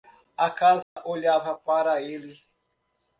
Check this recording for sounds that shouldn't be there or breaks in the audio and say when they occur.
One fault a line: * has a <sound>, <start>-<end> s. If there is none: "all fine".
* has a dropout, 0.8-1.0 s